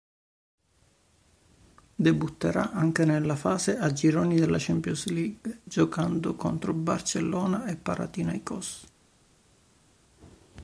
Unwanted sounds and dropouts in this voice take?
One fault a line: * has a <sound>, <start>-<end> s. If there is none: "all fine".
all fine